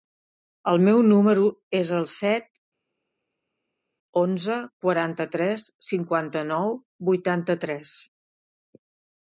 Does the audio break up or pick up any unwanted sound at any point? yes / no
no